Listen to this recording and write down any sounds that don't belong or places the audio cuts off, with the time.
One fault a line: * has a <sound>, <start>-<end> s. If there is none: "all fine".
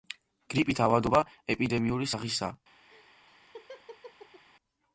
* has a laugh, 2.9-4.4 s